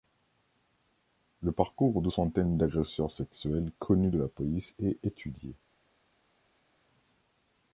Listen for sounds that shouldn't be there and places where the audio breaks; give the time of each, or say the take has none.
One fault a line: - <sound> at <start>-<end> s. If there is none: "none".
none